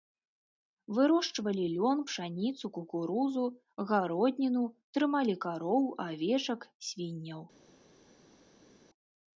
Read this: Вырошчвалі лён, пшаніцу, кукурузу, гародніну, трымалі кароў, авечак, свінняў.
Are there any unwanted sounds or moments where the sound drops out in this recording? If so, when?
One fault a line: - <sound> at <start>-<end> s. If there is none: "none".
none